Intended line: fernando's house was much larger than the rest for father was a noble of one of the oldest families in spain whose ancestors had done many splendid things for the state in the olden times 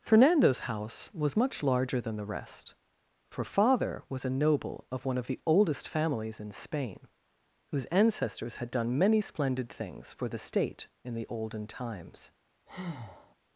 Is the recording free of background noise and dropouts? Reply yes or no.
no